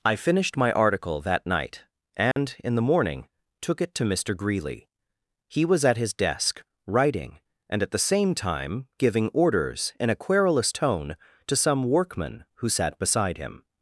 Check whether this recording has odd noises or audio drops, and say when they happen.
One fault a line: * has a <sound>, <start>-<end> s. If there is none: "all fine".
* has a dropout, 2.3-2.4 s